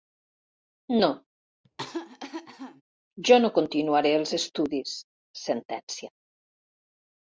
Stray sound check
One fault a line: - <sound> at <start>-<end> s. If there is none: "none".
- cough at 1.6-2.8 s